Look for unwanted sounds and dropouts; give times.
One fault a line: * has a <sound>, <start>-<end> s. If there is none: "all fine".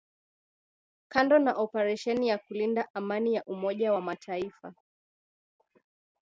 all fine